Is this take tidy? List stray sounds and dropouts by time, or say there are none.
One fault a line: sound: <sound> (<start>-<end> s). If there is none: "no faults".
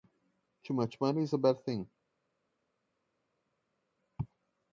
no faults